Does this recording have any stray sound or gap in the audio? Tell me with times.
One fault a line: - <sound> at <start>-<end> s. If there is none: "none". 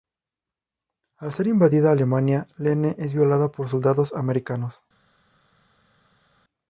none